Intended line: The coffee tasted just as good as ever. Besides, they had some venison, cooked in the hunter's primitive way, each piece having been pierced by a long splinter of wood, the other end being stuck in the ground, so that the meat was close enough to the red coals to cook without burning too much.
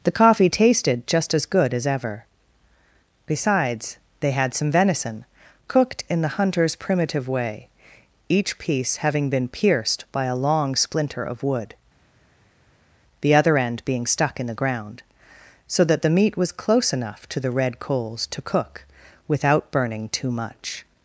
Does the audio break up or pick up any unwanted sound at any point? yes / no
no